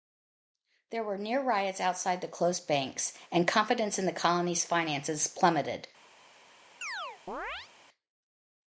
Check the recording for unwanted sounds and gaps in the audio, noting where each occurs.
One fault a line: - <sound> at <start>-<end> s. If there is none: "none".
- chirp at 6.8-7.7 s